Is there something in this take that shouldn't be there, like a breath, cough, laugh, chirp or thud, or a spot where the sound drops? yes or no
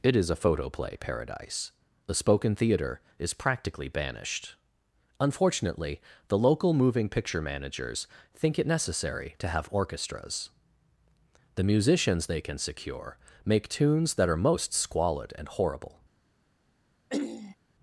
yes